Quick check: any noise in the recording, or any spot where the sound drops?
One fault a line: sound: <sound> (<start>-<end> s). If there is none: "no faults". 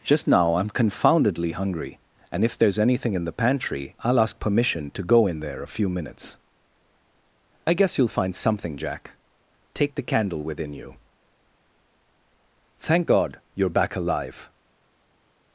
no faults